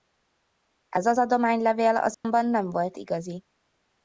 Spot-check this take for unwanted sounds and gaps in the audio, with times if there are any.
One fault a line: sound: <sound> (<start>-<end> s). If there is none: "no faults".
sound: dropout (2.1-2.2 s)